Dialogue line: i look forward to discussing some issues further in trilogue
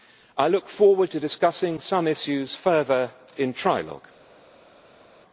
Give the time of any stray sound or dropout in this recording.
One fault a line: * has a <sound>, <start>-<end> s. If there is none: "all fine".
all fine